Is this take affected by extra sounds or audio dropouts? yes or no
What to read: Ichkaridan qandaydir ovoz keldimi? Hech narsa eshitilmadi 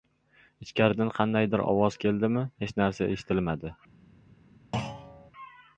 yes